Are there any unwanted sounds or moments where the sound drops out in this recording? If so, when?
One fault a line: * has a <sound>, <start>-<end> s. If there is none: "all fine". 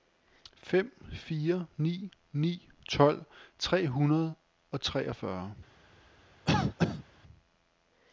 * has a cough, 6.5-7.0 s